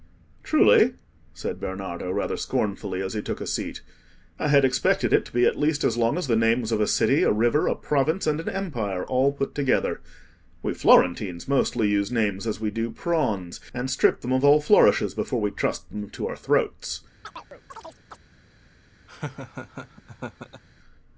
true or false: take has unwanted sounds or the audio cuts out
true